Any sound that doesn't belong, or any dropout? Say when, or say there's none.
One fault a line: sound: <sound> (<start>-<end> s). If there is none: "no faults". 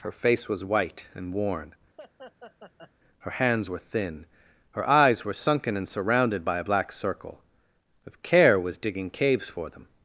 sound: laugh (2.0-2.9 s)